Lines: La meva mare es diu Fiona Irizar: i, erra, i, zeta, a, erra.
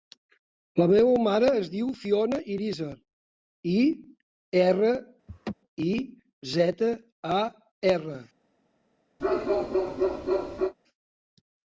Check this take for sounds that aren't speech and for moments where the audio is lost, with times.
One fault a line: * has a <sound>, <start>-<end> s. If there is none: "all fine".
* has a laugh, 5.3-5.5 s
* has a bark, 9.2-10.7 s